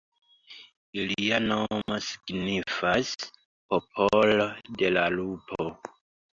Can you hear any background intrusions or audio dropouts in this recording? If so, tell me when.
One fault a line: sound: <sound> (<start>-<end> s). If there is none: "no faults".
sound: dropout (1.8-1.9 s)